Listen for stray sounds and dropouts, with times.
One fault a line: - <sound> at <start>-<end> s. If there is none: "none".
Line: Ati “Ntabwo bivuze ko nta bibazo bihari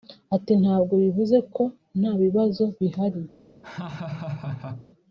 - laugh at 3.6-4.9 s